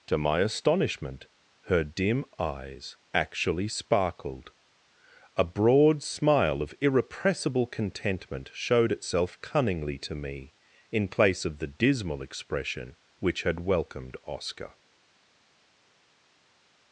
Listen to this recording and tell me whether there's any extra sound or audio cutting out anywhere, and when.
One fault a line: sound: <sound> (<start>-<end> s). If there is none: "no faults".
no faults